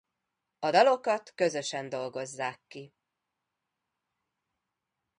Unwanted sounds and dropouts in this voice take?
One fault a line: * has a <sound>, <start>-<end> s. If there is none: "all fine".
all fine